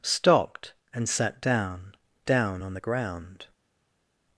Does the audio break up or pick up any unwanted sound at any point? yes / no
no